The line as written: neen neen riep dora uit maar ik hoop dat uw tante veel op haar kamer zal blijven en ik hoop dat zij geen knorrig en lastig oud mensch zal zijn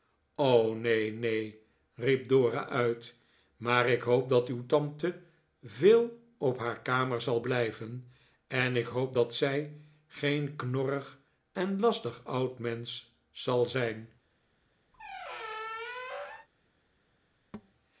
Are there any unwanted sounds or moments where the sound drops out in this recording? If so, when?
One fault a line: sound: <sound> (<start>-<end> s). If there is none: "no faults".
sound: squeak (14.9-16.5 s)
sound: thud (17.5-17.7 s)